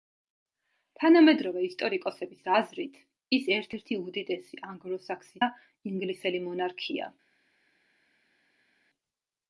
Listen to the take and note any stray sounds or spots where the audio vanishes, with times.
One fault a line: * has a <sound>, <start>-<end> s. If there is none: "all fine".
all fine